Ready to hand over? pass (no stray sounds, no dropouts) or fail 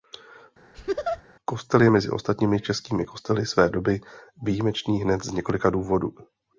fail